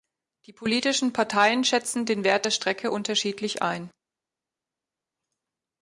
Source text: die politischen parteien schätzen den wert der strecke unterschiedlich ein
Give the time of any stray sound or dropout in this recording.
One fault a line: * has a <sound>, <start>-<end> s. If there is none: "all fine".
all fine